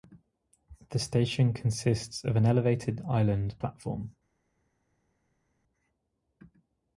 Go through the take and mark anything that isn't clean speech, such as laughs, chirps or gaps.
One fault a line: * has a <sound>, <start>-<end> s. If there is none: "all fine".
all fine